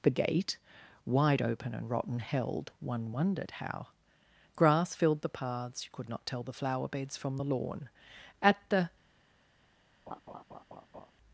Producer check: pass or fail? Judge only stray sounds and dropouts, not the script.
fail